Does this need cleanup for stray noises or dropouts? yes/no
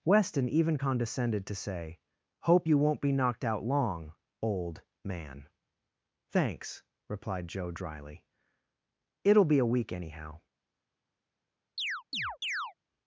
yes